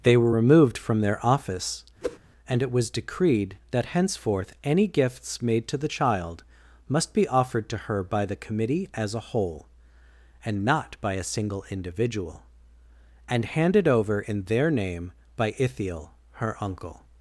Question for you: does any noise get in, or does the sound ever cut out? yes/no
yes